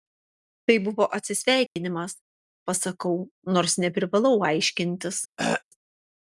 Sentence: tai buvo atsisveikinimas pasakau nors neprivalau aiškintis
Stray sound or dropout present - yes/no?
yes